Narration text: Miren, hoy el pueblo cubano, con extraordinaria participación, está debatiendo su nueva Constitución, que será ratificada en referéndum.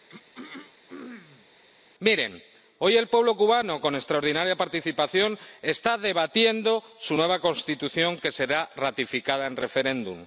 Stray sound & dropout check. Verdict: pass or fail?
fail